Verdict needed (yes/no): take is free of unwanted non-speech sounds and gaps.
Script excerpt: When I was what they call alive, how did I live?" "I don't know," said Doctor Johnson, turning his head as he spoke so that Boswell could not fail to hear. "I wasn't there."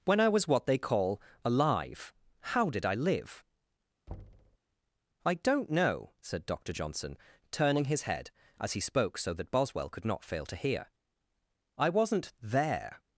no